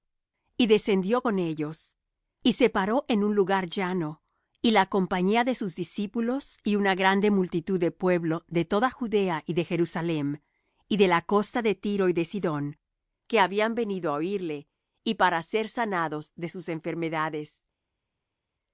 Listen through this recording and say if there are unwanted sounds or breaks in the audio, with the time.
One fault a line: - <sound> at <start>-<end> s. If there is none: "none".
none